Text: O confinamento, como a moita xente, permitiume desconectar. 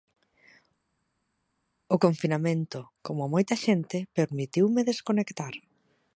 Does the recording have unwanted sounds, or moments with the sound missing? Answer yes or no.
no